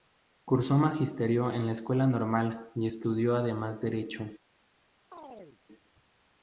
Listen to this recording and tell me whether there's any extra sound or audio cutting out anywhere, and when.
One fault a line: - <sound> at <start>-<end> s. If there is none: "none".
- chirp at 5.1-5.6 s